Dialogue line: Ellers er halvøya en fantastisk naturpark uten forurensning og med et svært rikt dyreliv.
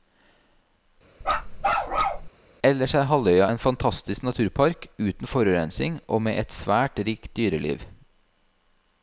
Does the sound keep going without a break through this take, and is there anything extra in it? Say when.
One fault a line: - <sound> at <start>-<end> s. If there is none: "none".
- bark at 1.2-2.3 s